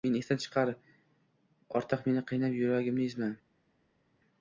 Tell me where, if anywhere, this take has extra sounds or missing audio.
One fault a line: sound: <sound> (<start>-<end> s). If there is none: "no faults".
no faults